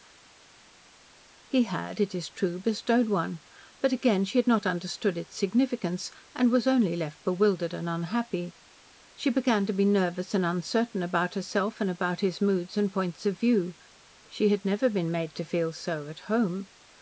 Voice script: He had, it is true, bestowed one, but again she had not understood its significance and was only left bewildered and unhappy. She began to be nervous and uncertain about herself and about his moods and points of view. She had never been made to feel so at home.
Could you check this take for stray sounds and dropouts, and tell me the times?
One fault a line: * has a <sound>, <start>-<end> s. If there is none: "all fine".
all fine